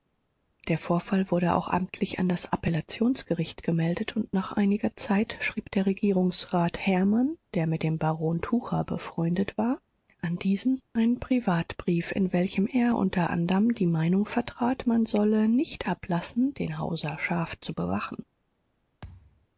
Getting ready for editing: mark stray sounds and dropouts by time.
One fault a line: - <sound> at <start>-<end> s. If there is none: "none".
- thud at 19.0-19.5 s